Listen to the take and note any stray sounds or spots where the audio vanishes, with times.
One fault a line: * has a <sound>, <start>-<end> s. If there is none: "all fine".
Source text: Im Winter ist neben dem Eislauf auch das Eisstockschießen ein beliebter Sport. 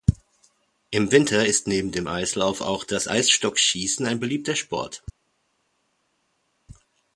all fine